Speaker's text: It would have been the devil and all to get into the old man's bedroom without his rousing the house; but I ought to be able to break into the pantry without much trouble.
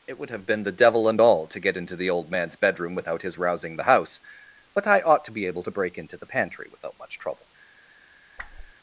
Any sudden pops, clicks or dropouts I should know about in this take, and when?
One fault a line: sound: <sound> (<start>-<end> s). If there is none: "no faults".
sound: whoosh (8.4-8.7 s)